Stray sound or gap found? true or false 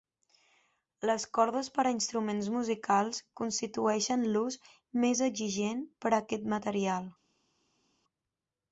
false